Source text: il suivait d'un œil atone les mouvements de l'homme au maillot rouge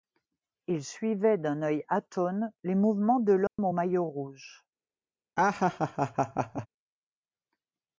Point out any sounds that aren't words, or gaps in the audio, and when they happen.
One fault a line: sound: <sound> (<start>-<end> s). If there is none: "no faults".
sound: dropout (3.5-3.6 s)
sound: laugh (5.4-6.7 s)